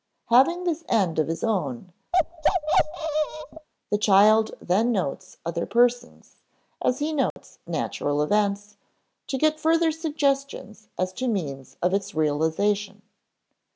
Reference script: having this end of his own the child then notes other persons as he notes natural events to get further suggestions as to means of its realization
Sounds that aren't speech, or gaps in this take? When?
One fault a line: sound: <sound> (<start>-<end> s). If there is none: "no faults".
sound: bark (2.1-3.7 s)
sound: dropout (7.3-7.4 s)